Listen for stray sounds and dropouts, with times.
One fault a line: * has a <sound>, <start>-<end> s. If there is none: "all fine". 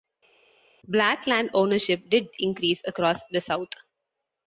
all fine